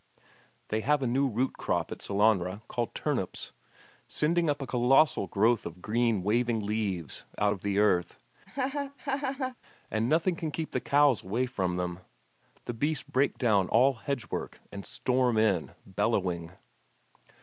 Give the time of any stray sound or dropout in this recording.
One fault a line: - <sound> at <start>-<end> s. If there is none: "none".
- laugh at 8.5-9.6 s